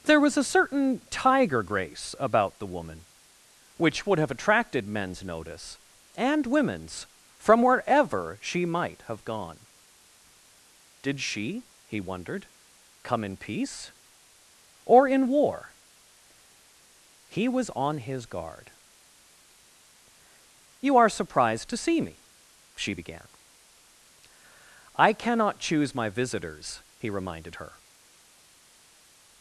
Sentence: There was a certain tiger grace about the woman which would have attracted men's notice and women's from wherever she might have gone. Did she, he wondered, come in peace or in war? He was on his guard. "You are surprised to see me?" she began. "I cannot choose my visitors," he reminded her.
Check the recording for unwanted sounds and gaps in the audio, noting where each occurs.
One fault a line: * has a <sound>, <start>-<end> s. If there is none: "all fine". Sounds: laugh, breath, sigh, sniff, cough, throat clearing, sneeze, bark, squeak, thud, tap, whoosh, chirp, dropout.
all fine